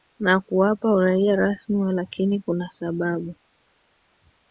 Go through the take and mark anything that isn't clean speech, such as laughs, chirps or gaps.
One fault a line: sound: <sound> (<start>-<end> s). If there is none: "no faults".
no faults